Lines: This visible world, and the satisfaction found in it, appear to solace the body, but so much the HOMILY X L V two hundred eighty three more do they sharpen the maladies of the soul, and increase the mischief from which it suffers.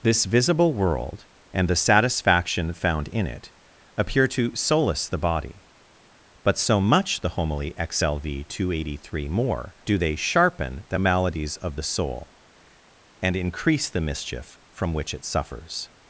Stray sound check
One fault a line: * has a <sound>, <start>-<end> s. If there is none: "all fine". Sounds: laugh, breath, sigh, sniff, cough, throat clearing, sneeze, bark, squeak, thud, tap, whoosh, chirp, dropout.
all fine